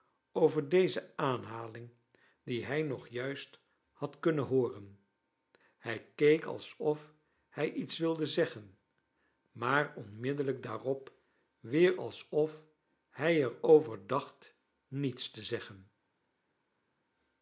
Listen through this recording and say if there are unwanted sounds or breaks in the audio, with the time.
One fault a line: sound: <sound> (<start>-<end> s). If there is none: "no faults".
no faults